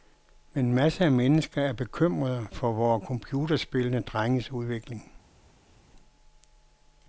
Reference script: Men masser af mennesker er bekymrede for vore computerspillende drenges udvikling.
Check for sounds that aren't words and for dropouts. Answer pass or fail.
pass